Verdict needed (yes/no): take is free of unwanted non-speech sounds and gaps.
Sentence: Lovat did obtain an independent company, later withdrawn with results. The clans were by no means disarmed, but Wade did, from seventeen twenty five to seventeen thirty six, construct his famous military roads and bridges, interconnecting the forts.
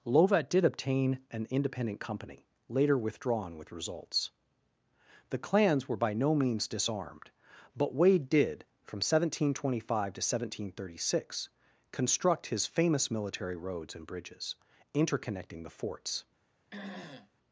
no